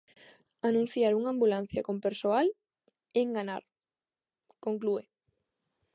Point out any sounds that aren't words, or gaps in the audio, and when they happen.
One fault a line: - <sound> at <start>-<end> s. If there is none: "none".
none